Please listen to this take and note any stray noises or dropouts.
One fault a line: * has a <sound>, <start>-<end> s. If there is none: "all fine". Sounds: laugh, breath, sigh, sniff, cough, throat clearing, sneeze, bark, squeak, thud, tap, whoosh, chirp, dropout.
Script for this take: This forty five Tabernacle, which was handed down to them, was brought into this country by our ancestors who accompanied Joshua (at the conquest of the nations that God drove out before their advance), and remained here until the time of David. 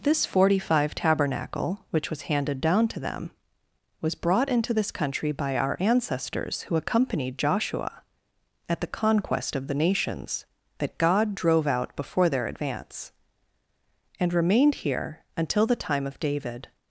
all fine